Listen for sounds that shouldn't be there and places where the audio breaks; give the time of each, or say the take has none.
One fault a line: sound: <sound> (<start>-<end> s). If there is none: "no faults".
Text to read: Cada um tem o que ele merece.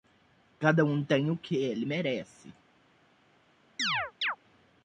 sound: chirp (3.8-4.4 s)